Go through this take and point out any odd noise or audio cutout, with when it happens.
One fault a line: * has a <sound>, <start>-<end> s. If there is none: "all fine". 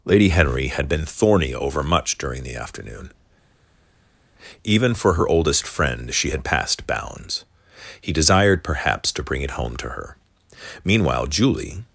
all fine